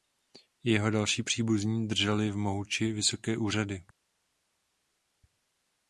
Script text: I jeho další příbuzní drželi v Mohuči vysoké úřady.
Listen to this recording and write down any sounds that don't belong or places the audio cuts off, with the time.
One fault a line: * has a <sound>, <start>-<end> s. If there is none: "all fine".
all fine